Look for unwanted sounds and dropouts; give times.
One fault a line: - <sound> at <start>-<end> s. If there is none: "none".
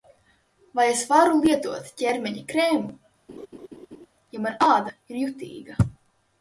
- laugh at 3.3-4.1 s